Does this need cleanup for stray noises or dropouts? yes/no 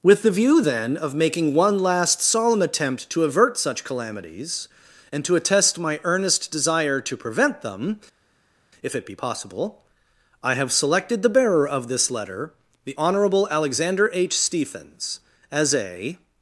no